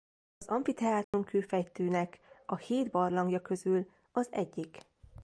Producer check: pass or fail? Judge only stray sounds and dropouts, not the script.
fail